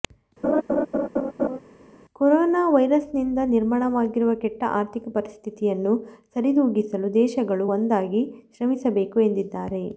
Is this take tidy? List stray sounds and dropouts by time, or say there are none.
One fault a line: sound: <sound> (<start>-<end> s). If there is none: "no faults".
sound: laugh (0.4-1.6 s)